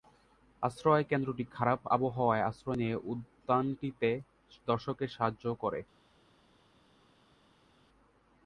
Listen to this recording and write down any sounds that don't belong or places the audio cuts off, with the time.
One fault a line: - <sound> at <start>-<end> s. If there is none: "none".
none